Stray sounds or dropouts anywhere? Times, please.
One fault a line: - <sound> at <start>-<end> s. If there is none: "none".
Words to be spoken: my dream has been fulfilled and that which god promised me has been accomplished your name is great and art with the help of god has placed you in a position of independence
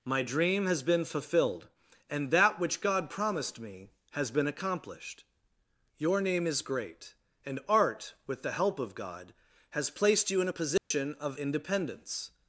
- dropout at 10.8-10.9 s